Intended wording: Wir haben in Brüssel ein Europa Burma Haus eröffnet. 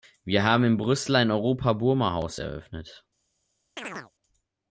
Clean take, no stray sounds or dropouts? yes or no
no